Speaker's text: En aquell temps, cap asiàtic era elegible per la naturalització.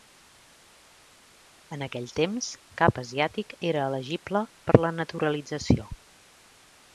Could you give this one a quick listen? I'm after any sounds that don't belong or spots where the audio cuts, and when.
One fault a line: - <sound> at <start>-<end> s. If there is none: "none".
none